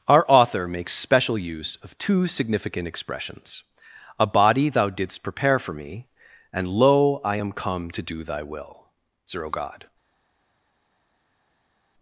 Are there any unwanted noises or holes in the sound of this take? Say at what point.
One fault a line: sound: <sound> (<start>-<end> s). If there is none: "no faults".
no faults